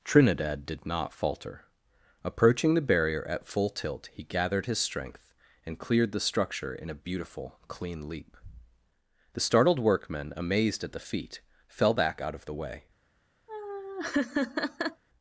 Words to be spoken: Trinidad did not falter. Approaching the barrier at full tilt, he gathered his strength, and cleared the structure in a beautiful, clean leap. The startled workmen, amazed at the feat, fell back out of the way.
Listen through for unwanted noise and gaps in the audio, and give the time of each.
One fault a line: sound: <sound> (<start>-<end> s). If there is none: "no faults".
sound: laugh (13.5-15.0 s)